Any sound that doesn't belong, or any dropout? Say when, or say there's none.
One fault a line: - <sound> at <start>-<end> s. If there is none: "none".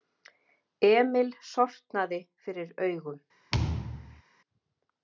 - thud at 3.5-4.2 s